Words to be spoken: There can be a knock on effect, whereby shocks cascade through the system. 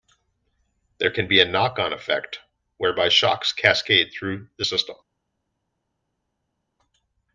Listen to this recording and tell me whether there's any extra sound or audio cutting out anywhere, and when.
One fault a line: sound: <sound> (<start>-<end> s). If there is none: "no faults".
no faults